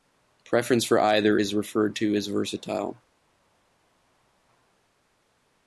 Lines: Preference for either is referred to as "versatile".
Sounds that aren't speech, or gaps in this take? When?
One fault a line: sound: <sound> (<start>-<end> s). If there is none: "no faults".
no faults